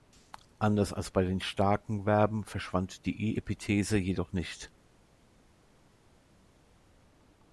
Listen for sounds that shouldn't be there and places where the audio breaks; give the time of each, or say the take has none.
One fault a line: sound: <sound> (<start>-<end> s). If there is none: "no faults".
no faults